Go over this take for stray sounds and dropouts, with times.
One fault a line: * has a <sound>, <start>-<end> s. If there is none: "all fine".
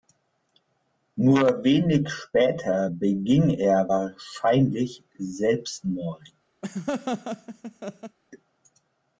* has a laugh, 6.6-8.2 s